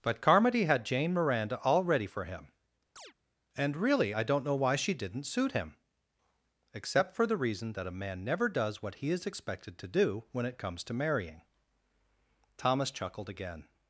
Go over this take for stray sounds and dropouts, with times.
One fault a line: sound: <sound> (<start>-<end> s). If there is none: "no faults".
sound: chirp (3.0-3.1 s)